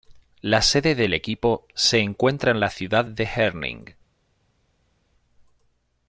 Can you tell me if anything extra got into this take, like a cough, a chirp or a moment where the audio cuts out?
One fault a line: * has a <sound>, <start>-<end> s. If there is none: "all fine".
all fine